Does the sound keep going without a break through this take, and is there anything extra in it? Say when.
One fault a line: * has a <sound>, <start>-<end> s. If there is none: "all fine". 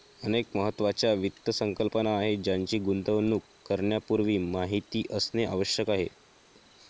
all fine